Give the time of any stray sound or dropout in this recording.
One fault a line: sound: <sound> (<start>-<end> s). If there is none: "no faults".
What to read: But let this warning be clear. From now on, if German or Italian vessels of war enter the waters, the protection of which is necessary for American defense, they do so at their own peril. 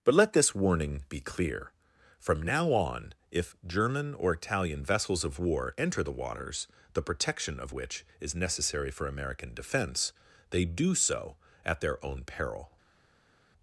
no faults